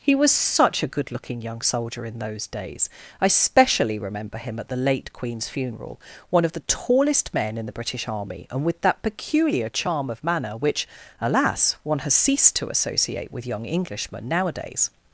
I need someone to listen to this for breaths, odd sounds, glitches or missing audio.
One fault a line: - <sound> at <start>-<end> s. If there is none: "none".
none